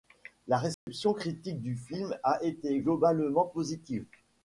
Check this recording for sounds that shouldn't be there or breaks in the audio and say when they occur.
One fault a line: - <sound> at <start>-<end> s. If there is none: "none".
- dropout at 0.7-0.9 s